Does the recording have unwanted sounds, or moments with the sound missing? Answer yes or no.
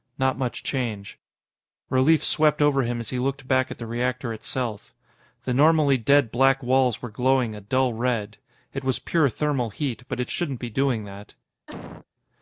yes